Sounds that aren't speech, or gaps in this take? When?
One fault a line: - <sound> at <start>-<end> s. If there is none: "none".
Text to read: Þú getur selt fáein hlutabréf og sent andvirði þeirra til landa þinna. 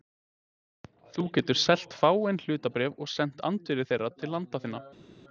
none